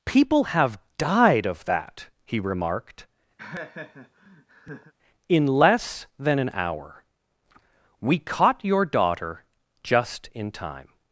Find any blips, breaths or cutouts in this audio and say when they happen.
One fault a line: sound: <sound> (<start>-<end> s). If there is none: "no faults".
sound: laugh (3.4-4.9 s)